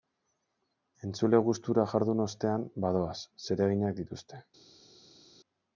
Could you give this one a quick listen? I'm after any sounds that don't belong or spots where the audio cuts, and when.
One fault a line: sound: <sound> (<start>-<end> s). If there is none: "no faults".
no faults